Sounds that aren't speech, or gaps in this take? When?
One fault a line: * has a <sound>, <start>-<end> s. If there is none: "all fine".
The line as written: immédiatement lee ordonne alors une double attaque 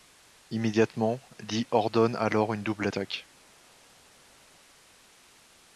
all fine